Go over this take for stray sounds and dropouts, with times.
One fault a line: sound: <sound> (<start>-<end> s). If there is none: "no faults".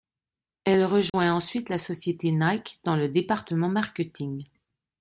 sound: dropout (1.1-1.1 s)